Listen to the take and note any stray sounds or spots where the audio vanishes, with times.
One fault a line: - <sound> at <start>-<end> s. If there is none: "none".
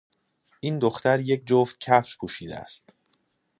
none